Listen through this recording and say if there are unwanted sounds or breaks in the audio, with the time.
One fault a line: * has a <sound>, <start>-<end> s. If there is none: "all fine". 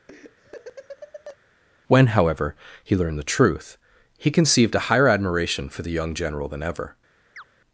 * has a laugh, 0.1-1.4 s
* has a chirp, 7.4-7.4 s